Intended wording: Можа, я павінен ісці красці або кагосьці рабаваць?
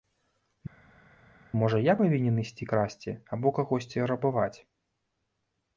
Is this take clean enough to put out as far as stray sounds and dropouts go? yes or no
yes